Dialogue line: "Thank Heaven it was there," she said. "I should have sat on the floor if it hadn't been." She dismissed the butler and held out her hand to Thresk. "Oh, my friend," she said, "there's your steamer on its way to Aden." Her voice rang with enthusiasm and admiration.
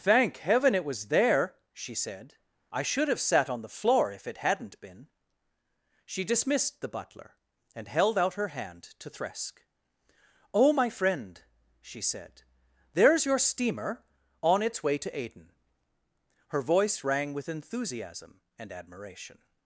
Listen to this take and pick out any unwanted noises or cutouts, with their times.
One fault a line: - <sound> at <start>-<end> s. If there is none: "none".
none